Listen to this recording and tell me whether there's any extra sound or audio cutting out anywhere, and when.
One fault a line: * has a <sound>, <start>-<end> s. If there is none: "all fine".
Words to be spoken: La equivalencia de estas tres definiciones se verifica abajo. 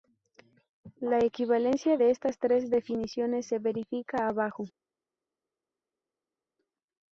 all fine